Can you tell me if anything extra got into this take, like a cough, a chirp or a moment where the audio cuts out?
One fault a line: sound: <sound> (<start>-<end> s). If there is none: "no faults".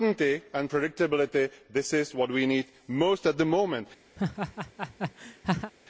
sound: laugh (4.2-5.7 s)